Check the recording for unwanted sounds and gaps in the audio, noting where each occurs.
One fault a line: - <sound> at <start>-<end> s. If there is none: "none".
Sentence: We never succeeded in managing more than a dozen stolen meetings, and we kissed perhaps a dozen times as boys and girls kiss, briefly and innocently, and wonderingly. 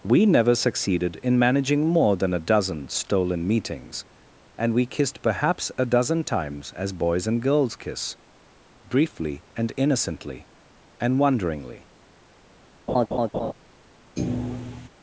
- laugh at 12.9-13.5 s
- thud at 14.2-14.9 s